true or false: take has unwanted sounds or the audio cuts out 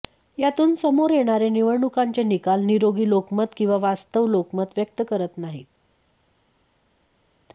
false